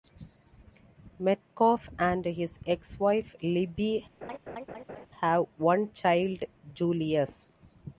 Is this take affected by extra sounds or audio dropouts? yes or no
yes